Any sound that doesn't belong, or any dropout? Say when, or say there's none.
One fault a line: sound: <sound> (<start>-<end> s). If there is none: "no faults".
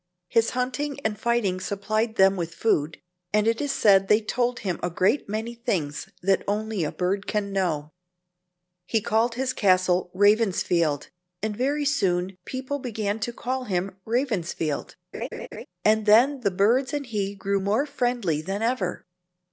sound: laugh (15.1-15.7 s)